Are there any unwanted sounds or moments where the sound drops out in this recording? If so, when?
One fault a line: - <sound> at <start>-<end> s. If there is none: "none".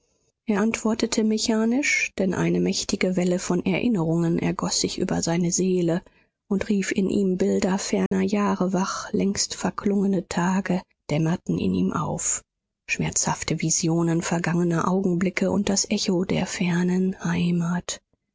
- dropout at 8.1-8.1 s